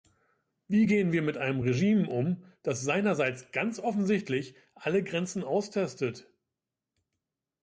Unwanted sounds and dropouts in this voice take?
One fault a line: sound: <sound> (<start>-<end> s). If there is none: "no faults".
no faults